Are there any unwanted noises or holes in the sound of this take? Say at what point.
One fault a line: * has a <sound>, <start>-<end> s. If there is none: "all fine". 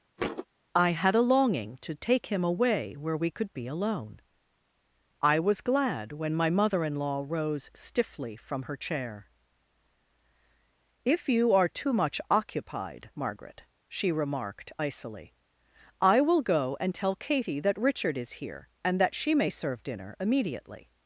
* has a thud, 0.2-0.5 s